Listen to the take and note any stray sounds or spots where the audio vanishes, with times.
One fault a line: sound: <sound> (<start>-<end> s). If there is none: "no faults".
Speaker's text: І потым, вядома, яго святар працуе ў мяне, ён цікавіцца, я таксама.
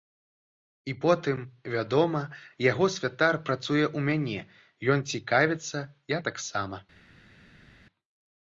no faults